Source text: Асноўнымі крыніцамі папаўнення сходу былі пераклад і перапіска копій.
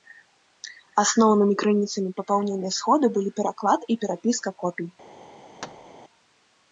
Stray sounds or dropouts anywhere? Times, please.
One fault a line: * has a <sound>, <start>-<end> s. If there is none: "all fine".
* has a thud, 5.6-6.0 s